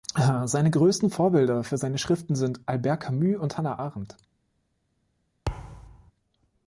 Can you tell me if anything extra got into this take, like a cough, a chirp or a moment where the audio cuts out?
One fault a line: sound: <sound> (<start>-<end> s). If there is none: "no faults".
sound: thud (5.5-6.1 s)